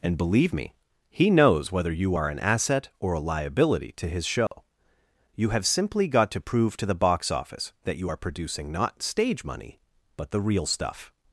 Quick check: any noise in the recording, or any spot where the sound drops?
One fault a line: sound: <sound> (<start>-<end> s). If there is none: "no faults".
sound: dropout (4.5-4.5 s)